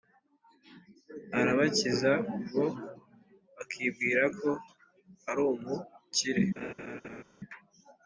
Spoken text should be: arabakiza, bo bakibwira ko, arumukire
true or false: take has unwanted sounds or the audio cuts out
true